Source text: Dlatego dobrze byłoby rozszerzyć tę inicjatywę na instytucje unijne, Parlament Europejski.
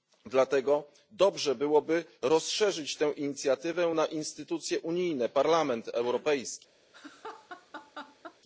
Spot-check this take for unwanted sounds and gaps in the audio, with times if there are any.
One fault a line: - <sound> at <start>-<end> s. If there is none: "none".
- laugh at 6.9-8.4 s